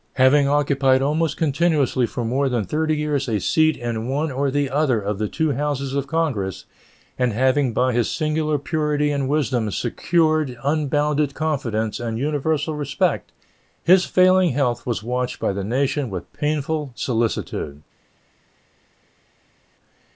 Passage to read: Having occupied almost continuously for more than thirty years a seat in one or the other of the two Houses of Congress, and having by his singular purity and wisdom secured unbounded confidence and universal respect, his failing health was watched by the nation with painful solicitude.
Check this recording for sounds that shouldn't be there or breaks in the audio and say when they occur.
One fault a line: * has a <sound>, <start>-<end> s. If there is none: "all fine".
all fine